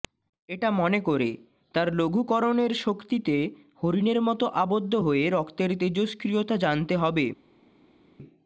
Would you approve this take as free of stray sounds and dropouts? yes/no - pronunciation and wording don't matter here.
yes